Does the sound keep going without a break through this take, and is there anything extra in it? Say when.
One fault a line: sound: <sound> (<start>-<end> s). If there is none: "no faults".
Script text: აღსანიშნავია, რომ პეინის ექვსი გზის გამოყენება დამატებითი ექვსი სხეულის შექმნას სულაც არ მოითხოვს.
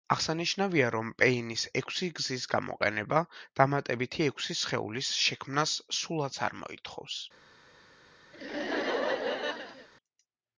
sound: laugh (8.3-9.9 s)